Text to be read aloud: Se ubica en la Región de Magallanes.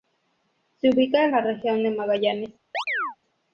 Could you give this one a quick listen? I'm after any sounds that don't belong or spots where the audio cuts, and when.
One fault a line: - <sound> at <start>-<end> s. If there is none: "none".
- chirp at 2.7-3.2 s